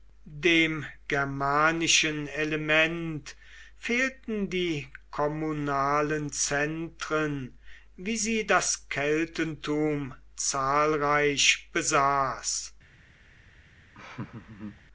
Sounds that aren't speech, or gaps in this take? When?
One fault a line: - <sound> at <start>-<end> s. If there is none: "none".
- laugh at 13.9-14.8 s